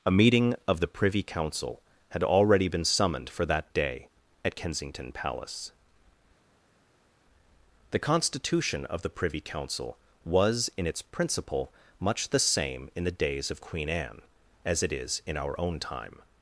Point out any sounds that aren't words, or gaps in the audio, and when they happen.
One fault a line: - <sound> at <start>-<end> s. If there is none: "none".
none